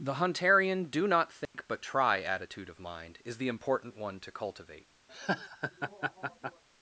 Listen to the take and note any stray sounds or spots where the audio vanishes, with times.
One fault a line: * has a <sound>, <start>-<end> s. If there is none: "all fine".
* has a dropout, 1.5-1.5 s
* has a laugh, 5.1-6.6 s